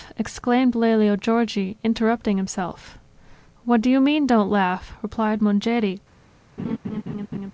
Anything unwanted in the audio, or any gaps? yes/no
yes